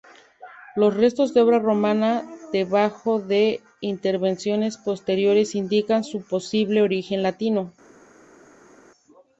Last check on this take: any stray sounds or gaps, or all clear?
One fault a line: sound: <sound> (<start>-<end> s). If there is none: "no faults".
no faults